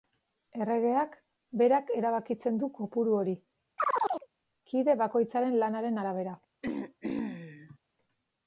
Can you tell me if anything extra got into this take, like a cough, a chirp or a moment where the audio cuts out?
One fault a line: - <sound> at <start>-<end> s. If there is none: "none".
- chirp at 3.8-4.3 s
- throat clearing at 6.6-7.8 s